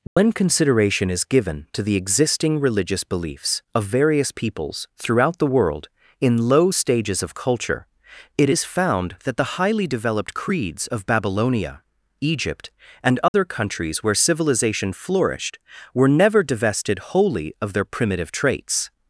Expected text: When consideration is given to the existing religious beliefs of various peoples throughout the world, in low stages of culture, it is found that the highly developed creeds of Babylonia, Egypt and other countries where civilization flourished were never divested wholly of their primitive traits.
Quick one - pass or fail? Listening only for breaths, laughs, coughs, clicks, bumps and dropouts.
fail